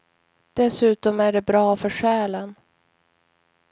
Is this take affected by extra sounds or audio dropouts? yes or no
no